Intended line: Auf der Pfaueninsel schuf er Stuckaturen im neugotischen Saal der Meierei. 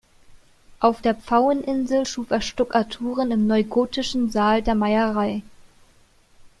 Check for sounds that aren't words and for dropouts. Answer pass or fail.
pass